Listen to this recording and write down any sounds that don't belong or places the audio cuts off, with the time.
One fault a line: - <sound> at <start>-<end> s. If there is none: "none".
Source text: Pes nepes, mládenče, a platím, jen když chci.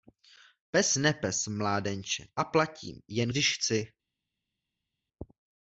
none